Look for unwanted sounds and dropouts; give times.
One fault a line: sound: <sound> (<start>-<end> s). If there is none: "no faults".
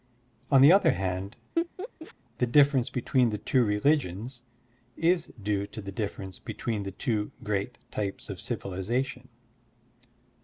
sound: laugh (1.6-2.1 s)